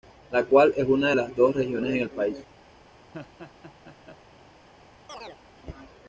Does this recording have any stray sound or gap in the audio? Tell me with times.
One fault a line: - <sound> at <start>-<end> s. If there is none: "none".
- laugh at 3.1-4.2 s
- chirp at 5.1-5.4 s